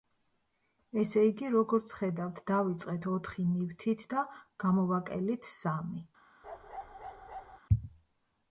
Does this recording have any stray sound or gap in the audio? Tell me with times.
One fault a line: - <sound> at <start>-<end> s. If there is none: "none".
- bark at 6.4-7.6 s